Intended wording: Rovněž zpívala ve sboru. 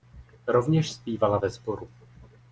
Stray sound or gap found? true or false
false